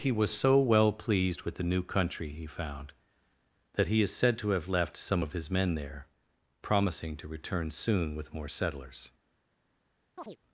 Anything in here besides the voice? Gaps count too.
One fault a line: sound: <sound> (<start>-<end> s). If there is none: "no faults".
sound: chirp (10.2-10.4 s)